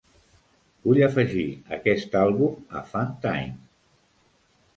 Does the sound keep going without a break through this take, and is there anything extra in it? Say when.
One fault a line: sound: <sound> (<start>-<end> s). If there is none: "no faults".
no faults